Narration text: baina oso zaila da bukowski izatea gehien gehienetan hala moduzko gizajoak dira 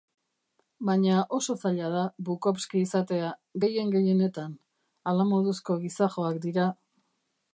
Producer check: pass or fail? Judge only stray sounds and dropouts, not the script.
pass